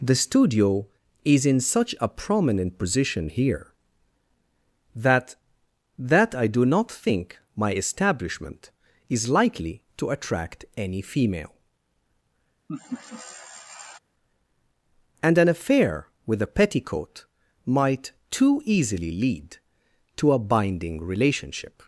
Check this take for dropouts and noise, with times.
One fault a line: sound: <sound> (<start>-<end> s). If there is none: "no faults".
sound: laugh (12.7-14.0 s)